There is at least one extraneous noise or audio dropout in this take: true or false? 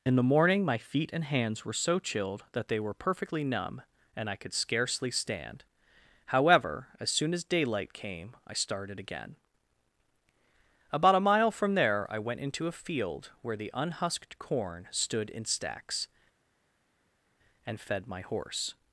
false